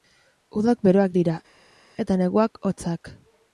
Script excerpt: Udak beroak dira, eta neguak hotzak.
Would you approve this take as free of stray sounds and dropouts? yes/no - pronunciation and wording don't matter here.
yes